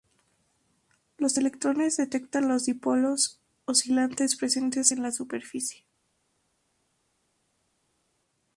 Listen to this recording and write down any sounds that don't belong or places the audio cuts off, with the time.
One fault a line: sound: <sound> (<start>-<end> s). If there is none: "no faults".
no faults